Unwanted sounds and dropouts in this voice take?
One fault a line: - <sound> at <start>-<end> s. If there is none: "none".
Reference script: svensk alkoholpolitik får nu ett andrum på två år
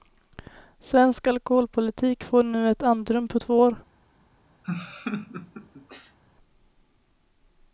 - laugh at 4.6-6.2 s